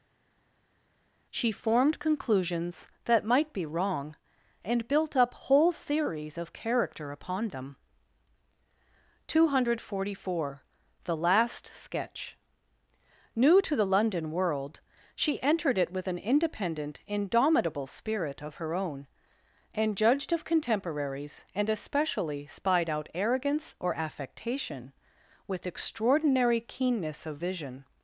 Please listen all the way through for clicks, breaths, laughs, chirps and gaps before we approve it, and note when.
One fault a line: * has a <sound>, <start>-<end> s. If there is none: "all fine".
all fine